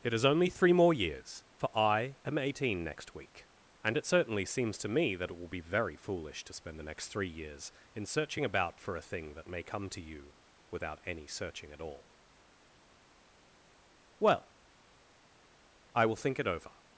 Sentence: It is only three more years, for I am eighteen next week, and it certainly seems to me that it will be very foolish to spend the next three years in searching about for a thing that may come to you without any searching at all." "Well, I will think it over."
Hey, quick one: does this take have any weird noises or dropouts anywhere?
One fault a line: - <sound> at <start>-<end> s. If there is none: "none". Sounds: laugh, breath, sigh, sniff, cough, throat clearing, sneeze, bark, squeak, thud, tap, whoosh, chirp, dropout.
none